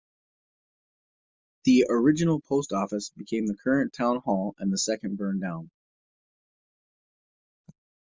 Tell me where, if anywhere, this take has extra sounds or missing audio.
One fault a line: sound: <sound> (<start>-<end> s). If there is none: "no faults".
no faults